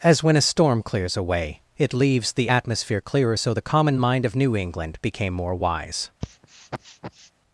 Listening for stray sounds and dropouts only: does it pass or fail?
fail